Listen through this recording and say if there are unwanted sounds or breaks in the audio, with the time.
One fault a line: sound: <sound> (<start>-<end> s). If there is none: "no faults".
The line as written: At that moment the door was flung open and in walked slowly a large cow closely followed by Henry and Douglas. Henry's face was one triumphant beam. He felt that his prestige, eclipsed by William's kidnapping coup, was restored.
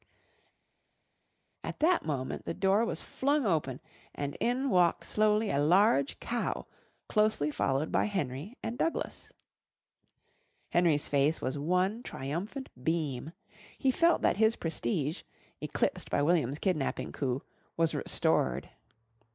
no faults